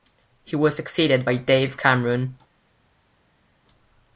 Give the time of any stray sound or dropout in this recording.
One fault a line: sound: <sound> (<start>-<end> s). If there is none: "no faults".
no faults